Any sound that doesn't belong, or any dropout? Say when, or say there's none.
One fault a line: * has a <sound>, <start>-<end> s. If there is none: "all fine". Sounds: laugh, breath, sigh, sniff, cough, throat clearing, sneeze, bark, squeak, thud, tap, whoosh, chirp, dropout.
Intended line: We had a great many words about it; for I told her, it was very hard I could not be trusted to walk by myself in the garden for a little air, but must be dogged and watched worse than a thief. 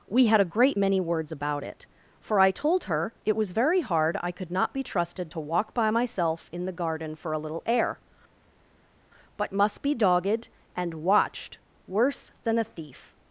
all fine